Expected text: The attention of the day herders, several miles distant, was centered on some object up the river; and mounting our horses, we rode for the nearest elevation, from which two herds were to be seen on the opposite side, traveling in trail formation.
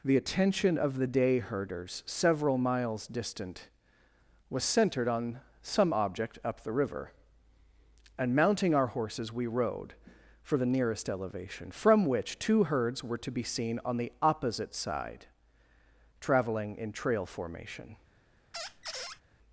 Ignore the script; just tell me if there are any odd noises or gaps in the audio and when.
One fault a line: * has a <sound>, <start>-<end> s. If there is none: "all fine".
* has a squeak, 18.5-19.2 s